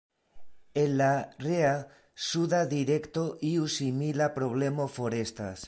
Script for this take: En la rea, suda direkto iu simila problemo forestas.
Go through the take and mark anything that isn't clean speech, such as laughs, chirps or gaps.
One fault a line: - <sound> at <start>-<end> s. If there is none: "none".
none